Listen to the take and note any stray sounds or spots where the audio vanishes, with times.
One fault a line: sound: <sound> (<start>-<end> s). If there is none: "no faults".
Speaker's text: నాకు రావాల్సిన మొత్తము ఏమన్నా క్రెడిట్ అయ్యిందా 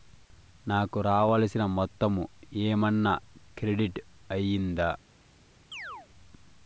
sound: chirp (5.7-6.1 s)